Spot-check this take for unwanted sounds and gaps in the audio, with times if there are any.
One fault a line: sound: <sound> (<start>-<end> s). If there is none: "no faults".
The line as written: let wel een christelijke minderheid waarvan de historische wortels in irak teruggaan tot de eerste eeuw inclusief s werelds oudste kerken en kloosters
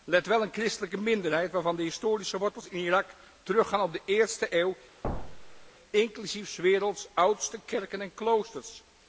sound: thud (5.0-5.7 s)